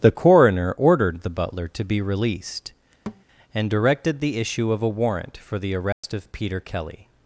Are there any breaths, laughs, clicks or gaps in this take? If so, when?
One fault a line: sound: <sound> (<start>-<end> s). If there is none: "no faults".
sound: thud (3.1-3.2 s)
sound: dropout (5.9-6.0 s)